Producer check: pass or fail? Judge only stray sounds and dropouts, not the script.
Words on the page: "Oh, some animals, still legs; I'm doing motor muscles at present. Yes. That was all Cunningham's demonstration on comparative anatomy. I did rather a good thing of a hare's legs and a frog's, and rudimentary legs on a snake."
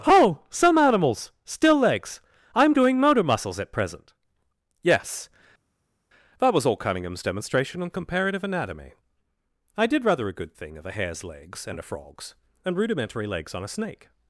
pass